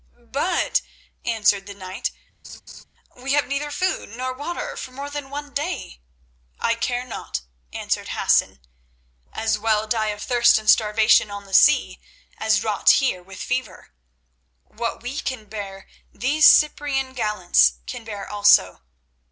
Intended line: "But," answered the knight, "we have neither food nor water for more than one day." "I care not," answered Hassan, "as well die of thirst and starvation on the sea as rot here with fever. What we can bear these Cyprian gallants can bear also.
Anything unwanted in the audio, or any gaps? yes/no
yes